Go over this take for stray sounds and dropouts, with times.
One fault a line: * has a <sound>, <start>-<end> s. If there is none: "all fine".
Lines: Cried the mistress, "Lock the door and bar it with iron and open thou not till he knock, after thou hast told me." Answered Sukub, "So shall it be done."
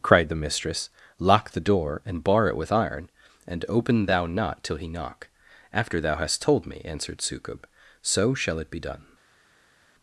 all fine